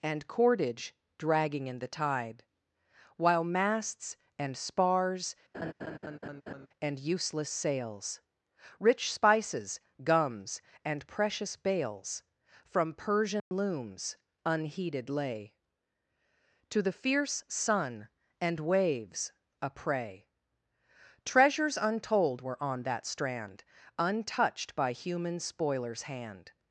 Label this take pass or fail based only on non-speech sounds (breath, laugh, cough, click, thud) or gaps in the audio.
fail